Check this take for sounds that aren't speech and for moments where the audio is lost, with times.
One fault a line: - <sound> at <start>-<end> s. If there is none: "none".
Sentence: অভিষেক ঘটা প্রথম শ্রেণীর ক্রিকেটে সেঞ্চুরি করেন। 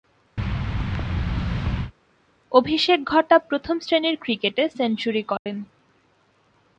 - thud at 0.4-1.9 s
- dropout at 5.4-5.5 s